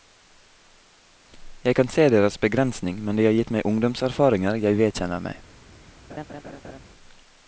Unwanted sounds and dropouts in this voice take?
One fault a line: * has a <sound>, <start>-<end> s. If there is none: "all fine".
* has a laugh, 6.1-6.8 s